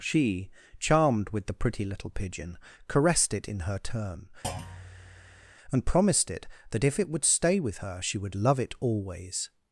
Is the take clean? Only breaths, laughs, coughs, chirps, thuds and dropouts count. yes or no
no